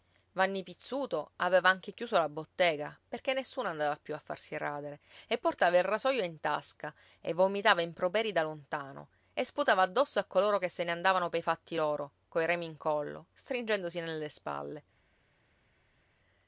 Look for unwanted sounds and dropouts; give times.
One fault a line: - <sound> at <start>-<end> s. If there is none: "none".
none